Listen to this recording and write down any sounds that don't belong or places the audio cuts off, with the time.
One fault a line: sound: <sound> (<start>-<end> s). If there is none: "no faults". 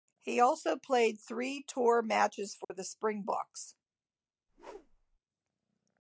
sound: dropout (2.6-2.7 s)
sound: whoosh (4.5-5.2 s)